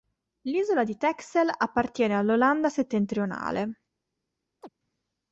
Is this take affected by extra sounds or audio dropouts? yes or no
yes